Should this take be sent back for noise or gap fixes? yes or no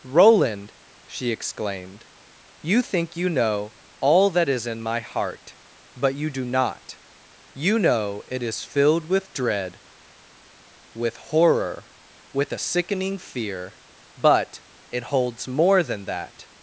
no